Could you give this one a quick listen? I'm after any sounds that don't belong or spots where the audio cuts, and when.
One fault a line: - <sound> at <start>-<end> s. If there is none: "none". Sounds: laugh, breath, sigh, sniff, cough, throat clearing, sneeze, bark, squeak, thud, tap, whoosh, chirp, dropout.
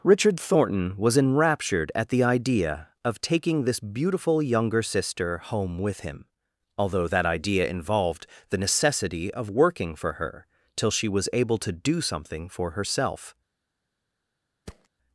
- thud at 14.7-14.9 s